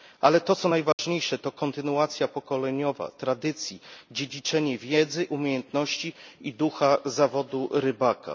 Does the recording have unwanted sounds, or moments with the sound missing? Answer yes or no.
yes